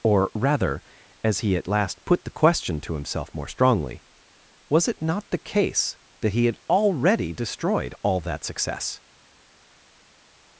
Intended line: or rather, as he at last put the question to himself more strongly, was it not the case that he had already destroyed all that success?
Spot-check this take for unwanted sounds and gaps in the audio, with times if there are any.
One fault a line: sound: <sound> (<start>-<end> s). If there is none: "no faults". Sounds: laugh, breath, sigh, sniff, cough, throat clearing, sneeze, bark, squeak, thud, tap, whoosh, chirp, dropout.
no faults